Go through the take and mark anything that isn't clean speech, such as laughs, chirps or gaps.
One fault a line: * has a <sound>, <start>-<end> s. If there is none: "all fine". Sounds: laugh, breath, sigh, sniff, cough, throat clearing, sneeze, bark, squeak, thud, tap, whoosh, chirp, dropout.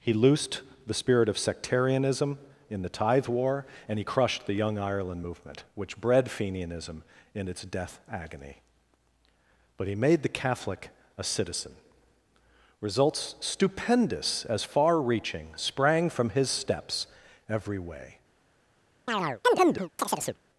* has a chirp, 19.1-20.4 s